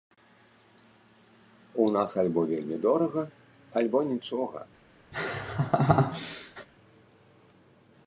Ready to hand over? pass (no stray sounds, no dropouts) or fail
fail